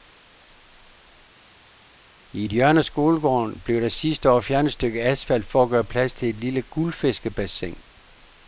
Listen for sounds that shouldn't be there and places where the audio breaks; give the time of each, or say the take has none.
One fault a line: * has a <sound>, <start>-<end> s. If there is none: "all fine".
all fine